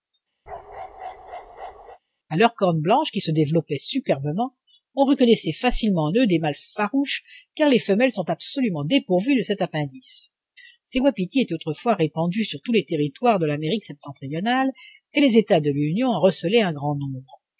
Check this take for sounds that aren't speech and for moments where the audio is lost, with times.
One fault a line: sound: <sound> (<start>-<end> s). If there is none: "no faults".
sound: bark (0.5-2.0 s)